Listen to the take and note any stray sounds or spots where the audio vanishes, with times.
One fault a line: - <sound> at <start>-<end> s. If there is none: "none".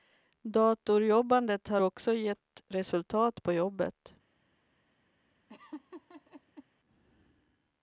- laugh at 5.5-6.6 s